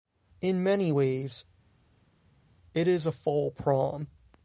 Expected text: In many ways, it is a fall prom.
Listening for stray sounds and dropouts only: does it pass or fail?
pass